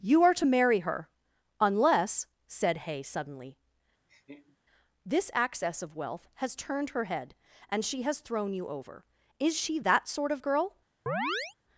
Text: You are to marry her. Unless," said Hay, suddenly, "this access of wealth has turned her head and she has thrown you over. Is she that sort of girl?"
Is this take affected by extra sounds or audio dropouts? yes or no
yes